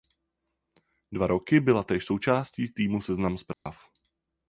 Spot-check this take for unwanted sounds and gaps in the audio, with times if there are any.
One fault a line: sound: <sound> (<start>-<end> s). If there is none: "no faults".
sound: dropout (3.5-3.7 s)